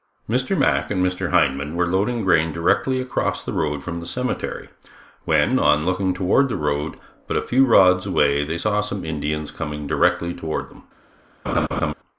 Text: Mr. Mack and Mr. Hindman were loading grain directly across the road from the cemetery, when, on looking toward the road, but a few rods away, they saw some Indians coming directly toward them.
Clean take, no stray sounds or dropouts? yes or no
no